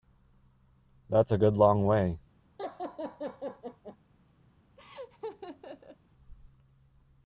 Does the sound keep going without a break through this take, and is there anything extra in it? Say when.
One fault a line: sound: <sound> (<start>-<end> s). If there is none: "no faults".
sound: laugh (2.6-4.0 s)
sound: laugh (4.8-6.0 s)